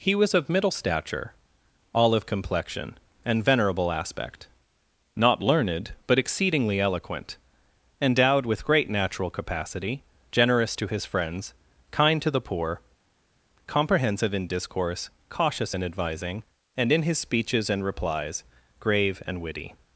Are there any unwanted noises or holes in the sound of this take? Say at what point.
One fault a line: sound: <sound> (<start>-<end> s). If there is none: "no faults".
no faults